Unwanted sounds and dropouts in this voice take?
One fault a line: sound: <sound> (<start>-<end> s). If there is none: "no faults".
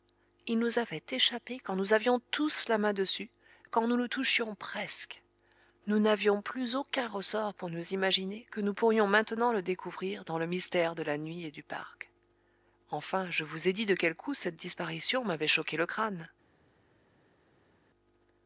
no faults